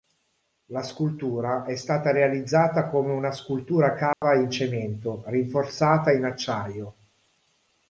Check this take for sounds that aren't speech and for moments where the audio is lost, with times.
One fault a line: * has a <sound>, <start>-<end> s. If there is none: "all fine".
* has a dropout, 4.1-4.2 s